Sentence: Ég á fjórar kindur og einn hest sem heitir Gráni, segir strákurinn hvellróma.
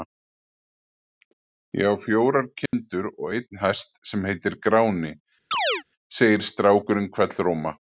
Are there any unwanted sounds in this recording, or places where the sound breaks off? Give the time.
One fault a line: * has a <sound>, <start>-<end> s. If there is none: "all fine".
* has a dropout, 2.7-2.7 s
* has a chirp, 5.5-5.8 s